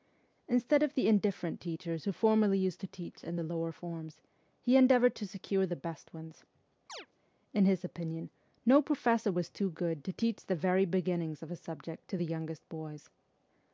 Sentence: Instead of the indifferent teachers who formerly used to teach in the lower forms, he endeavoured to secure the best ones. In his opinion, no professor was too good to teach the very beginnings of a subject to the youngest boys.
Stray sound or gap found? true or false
true